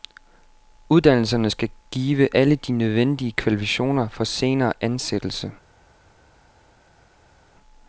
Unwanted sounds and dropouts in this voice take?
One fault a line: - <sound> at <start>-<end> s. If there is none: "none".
none